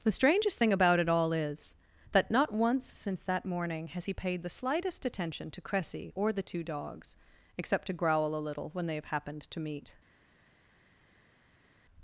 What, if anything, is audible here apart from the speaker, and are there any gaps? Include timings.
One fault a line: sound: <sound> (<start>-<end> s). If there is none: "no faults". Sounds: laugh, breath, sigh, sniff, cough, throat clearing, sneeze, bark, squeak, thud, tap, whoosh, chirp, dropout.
no faults